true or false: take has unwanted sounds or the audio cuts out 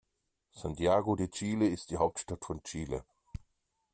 false